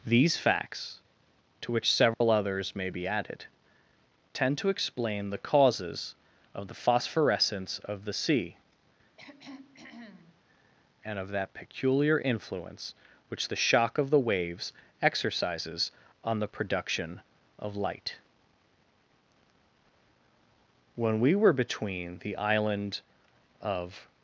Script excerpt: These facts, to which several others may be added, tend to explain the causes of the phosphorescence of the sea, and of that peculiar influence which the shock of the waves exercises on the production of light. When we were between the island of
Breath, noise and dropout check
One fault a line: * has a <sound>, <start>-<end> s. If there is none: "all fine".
* has a dropout, 2.1-2.2 s
* has a throat clearing, 9.2-10.4 s